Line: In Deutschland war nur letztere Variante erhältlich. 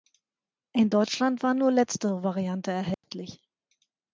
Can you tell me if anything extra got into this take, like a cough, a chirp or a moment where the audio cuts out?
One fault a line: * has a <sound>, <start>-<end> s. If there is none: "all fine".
* has a dropout, 2.9-3.0 s